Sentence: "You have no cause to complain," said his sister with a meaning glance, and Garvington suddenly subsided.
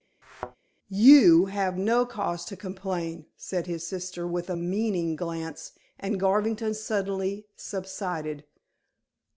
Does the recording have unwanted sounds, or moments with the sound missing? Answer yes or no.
yes